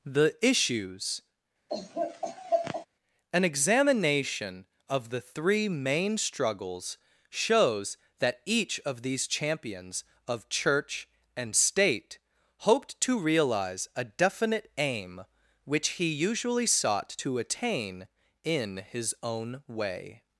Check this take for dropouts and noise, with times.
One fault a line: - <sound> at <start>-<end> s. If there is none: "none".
- laugh at 1.7-2.9 s